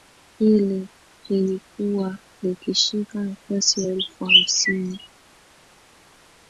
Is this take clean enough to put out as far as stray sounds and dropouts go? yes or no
yes